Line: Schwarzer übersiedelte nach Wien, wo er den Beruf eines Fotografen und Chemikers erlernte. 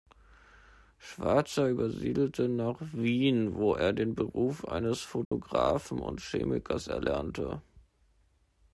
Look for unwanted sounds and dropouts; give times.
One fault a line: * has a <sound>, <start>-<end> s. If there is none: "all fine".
* has a dropout, 5.2-5.3 s